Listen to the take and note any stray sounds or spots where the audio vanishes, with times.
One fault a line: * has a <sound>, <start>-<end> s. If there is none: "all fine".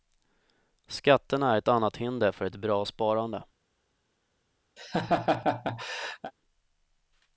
* has a laugh, 4.8-6.3 s